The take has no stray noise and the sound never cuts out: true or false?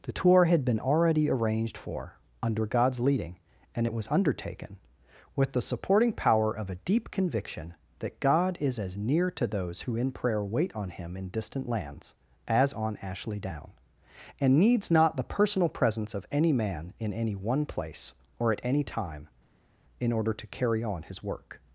true